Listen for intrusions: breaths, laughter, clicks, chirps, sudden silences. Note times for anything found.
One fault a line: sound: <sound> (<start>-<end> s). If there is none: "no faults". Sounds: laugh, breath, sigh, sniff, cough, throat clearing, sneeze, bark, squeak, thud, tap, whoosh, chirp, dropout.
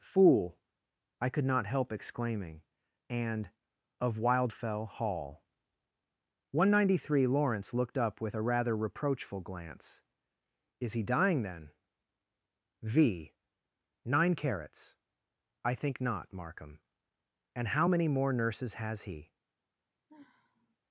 sound: sigh (20.1-20.8 s)